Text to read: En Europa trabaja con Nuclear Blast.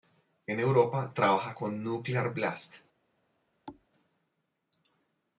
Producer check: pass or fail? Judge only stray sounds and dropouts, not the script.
fail